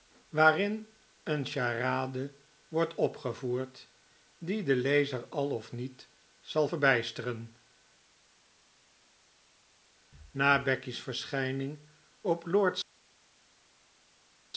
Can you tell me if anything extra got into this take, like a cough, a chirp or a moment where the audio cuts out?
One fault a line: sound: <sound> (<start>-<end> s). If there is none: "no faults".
no faults